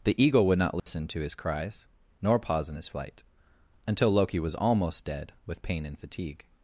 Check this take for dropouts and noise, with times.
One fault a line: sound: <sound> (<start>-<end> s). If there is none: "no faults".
sound: dropout (0.8-0.9 s)